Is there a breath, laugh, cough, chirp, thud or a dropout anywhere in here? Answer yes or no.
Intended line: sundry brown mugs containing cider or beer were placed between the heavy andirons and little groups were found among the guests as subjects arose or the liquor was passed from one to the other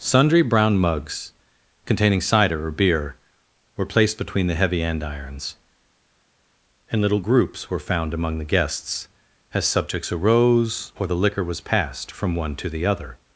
no